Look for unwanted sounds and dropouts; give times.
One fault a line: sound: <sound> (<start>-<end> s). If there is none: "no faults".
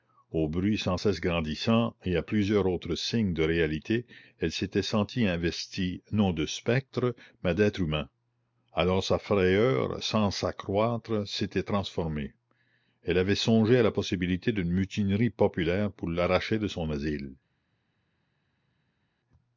no faults